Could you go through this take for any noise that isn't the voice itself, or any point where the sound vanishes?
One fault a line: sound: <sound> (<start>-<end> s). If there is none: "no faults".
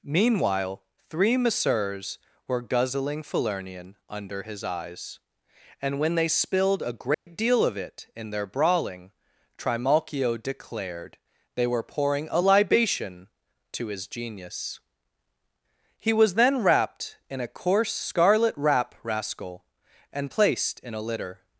sound: dropout (7.1-7.3 s)